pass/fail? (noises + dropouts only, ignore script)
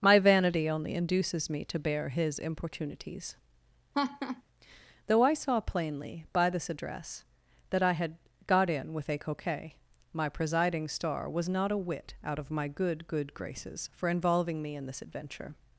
fail